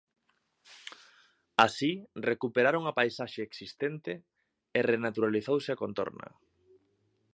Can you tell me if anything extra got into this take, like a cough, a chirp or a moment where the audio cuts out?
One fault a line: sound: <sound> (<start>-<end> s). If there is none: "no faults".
no faults